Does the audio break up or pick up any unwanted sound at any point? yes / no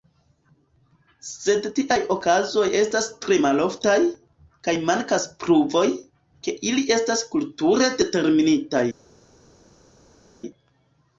no